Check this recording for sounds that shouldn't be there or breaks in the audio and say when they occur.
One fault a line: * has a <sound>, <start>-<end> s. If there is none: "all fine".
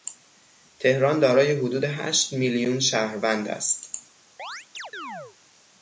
* has a chirp, 4.4-5.4 s